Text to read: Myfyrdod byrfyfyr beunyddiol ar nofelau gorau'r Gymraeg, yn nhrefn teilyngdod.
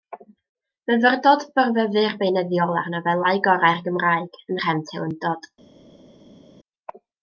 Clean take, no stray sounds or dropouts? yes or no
yes